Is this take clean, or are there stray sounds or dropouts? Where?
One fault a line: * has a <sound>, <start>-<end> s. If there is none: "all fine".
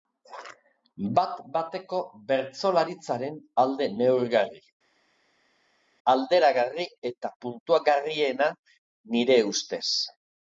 all fine